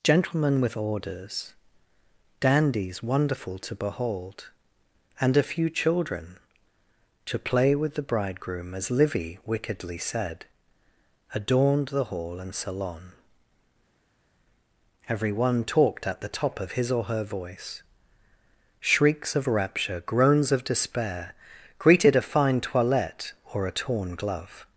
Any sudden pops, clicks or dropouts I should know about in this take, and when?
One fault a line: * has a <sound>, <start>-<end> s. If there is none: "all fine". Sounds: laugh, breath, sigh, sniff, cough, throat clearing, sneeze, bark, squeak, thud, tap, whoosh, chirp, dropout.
all fine